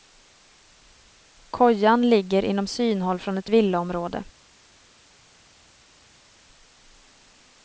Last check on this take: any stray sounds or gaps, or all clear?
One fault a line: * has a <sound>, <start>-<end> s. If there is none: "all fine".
all fine